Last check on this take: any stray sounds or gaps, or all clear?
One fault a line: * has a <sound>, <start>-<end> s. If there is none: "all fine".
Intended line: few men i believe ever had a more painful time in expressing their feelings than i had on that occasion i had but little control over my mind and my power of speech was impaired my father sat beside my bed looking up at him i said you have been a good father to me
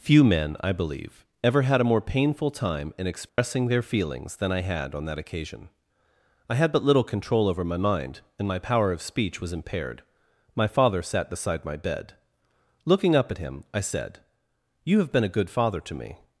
* has a dropout, 3.3-3.4 s